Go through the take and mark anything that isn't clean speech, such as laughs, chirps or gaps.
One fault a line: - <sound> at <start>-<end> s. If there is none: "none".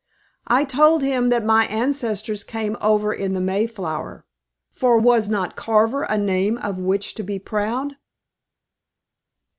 none